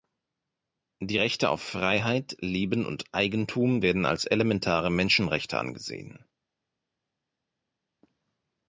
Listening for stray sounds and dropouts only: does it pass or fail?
pass